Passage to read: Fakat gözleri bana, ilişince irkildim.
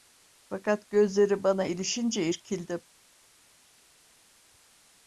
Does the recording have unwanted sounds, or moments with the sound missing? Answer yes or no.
no